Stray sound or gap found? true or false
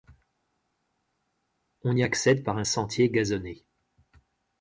false